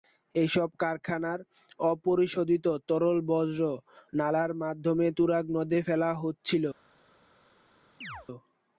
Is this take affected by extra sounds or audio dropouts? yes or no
yes